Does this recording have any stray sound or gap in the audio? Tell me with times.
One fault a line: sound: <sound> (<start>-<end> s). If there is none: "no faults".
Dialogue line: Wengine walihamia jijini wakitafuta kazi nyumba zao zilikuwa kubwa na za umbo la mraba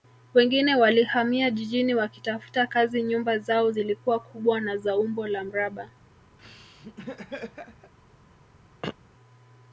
sound: laugh (6.4-7.9 s)
sound: throat clearing (8.8-9.0 s)